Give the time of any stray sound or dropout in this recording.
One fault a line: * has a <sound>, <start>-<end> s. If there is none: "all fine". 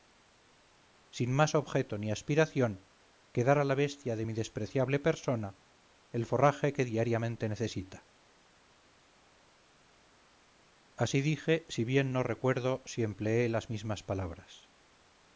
all fine